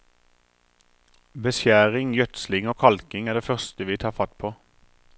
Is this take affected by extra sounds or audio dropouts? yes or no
no